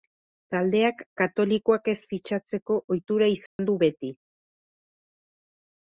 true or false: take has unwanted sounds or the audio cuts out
true